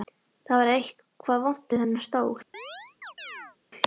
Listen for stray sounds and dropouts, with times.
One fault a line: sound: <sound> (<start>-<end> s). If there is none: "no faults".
sound: chirp (2.5-3.6 s)